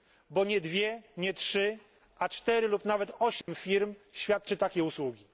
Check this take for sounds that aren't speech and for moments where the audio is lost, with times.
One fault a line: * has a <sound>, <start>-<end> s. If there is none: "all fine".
* has a dropout, 3.4-3.5 s